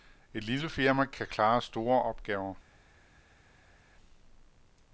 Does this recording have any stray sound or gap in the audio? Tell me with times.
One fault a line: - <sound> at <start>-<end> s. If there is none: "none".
none